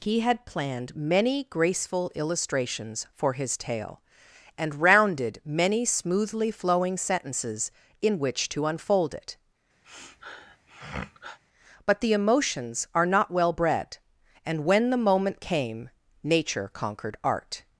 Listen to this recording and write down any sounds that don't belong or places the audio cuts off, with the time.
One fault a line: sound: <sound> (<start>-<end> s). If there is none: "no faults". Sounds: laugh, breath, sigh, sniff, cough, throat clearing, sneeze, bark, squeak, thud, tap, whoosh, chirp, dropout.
sound: sniff (9.8-11.4 s)